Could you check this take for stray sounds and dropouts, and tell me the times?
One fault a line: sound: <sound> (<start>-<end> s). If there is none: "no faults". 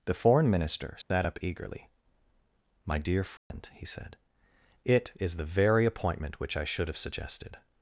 sound: dropout (1.0-1.1 s)
sound: dropout (3.4-3.5 s)